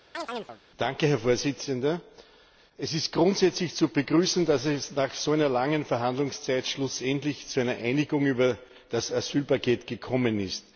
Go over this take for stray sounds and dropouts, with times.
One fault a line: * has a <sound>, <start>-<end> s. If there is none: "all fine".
* has a chirp, 0.1-0.6 s